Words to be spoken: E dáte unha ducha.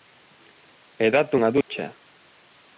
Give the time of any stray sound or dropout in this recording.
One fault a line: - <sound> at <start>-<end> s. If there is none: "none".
- dropout at 1.6-1.7 s